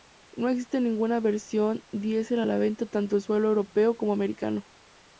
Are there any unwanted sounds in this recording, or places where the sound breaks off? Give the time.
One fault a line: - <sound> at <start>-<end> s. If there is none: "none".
none